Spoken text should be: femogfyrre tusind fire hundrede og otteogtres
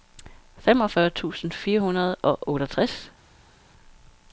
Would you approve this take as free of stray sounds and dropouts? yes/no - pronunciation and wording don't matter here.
yes